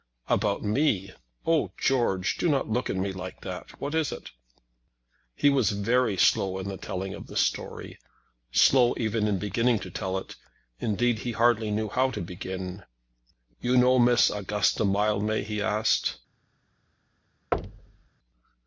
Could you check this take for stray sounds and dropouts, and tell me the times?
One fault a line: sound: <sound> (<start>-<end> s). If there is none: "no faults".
sound: thud (17.5-18.1 s)